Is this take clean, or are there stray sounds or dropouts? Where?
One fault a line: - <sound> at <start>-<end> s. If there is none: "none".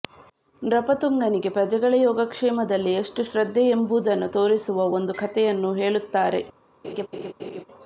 - laugh at 6.8-7.6 s